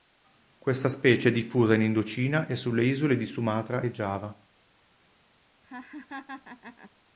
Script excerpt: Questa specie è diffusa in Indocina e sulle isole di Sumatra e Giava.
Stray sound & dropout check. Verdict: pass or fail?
fail